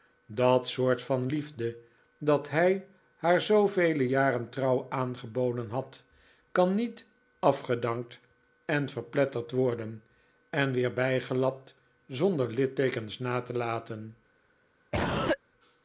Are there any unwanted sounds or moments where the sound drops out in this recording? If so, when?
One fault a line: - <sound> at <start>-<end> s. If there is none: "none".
- cough at 14.9-15.4 s